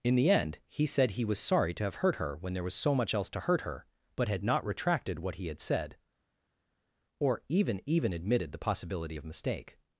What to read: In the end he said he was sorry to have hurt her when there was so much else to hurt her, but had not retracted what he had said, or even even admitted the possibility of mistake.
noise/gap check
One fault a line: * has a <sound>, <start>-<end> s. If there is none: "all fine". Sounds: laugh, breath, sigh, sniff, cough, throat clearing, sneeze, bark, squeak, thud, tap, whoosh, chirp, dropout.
all fine